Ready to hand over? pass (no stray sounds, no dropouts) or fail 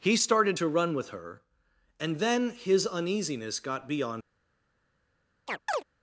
fail